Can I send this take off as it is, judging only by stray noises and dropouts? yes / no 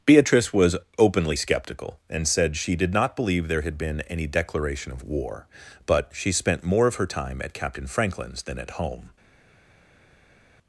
yes